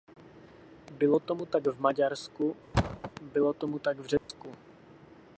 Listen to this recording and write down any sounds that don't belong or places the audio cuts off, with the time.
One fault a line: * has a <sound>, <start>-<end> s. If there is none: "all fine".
* has a thud, 2.7-3.1 s
* has a dropout, 4.2-4.3 s